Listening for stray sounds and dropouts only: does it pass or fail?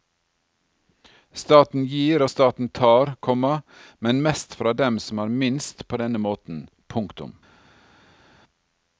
pass